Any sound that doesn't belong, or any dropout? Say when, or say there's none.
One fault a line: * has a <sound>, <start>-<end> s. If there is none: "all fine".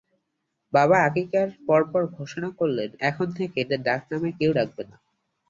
all fine